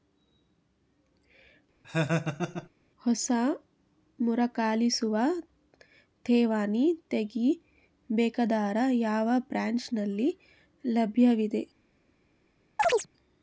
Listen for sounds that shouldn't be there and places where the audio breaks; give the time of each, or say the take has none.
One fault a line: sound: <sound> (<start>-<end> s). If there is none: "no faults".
sound: laugh (1.8-2.7 s)
sound: chirp (12.8-13.1 s)